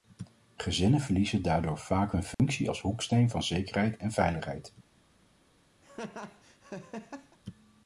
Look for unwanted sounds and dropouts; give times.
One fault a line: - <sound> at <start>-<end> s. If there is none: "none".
- dropout at 2.3-2.4 s
- laugh at 5.8-7.4 s